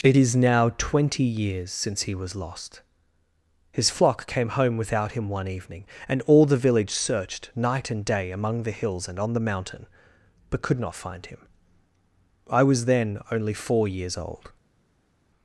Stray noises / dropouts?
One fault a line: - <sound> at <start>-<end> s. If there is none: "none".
none